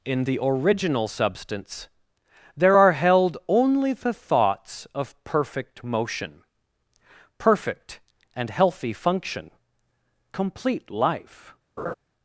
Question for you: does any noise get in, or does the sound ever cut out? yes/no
yes